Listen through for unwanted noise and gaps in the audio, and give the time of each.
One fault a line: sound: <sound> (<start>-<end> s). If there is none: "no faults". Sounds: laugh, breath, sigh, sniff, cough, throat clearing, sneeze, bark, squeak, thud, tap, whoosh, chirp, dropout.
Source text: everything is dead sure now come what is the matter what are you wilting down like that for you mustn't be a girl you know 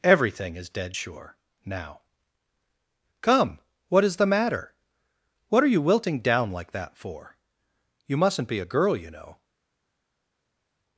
no faults